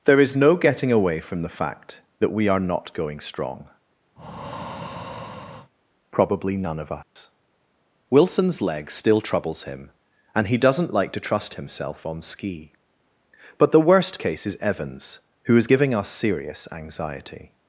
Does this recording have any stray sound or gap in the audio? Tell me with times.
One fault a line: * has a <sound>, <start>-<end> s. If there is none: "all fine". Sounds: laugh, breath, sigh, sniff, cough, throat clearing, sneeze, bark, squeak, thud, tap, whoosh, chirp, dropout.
* has a breath, 4.2-5.7 s
* has a dropout, 7.0-7.2 s